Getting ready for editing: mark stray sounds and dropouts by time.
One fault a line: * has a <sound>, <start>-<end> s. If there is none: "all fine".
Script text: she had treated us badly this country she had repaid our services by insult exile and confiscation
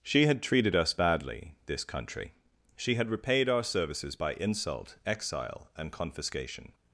all fine